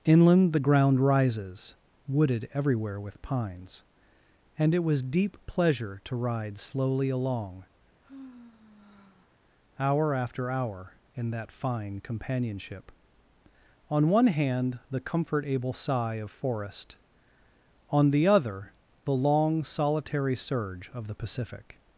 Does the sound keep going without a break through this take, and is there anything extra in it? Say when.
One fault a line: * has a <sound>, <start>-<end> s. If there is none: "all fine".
* has a sigh, 8.0-9.4 s